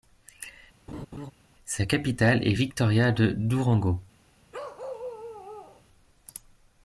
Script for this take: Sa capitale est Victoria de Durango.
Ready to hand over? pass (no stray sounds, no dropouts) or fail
fail